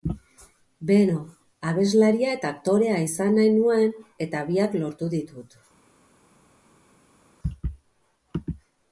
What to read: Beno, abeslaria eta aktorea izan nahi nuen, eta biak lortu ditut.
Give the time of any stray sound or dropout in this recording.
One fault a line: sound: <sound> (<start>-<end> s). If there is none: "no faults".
no faults